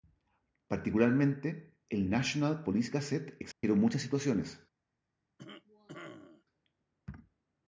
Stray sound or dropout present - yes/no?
yes